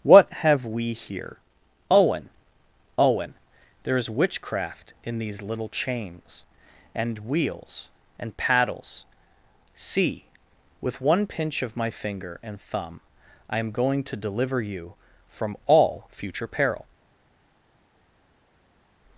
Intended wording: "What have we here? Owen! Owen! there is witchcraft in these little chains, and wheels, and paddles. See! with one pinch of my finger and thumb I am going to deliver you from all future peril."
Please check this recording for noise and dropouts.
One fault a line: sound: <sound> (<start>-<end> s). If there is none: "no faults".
no faults